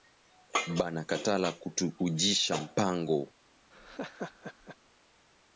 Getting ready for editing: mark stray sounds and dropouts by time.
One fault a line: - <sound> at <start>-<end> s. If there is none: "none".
- laugh at 3.7-4.8 s